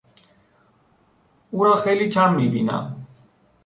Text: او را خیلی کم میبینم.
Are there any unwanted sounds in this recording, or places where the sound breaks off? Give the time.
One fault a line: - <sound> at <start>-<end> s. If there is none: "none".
none